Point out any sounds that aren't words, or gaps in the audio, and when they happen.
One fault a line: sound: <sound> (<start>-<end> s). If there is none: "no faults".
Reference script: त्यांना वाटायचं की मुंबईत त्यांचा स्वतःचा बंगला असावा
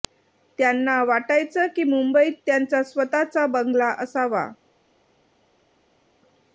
no faults